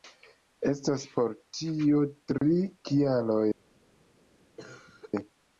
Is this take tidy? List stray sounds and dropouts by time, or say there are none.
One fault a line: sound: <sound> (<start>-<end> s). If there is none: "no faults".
sound: dropout (2.4-2.4 s)
sound: cough (4.6-5.1 s)